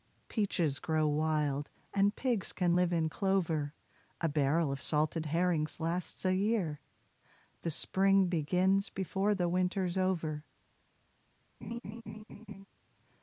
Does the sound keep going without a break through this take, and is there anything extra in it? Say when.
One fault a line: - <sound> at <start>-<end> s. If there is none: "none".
- laugh at 11.6-12.7 s